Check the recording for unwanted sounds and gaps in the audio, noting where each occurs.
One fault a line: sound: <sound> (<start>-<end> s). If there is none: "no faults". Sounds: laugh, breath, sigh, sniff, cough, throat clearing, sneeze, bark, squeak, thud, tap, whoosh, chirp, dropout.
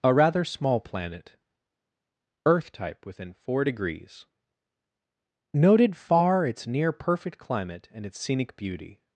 no faults